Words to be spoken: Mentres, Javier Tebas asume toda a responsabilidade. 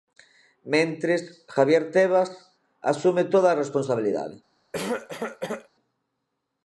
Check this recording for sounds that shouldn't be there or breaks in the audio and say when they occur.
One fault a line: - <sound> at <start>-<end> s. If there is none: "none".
- cough at 4.7-5.7 s